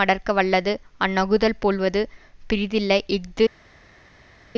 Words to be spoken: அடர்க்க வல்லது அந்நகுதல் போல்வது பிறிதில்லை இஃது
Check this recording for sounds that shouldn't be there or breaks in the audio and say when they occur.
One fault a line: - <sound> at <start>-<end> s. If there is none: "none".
none